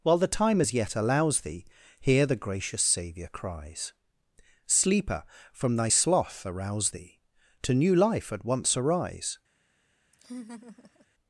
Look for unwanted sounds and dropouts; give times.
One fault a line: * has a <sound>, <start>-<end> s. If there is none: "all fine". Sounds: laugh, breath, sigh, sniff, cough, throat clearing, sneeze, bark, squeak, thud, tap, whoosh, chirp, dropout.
* has a laugh, 10.1-11.1 s